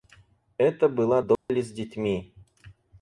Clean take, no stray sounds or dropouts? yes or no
no